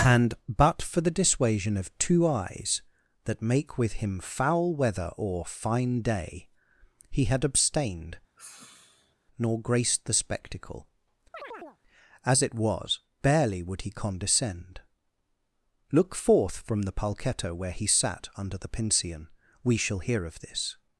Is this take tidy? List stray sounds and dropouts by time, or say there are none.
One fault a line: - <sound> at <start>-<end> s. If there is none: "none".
- sigh at 8.4-9.2 s
- chirp at 11.3-11.8 s